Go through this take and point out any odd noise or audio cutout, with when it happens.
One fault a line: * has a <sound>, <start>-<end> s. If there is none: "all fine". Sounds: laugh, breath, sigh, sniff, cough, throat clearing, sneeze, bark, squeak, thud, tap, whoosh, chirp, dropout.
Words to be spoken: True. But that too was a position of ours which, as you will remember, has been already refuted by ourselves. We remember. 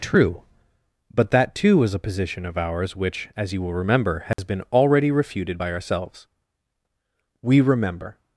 * has a dropout, 4.3-4.4 s